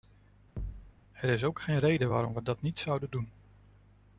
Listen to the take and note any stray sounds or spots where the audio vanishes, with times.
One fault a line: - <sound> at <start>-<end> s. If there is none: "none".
- thud at 0.6-0.9 s